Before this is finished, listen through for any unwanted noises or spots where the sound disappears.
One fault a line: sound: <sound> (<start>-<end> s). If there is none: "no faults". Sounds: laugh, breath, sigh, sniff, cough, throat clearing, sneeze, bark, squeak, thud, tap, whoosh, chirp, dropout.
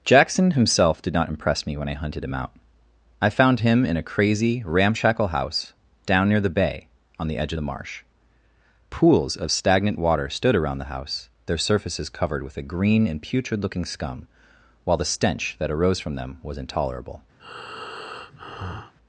sound: breath (17.4-18.9 s)